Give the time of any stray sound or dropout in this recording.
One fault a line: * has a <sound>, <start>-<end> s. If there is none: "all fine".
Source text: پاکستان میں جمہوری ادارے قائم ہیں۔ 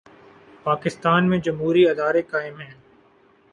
all fine